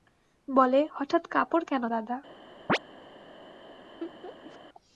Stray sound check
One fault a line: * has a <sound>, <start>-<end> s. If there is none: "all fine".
* has a chirp, 2.7-2.8 s
* has a laugh, 4.0-4.6 s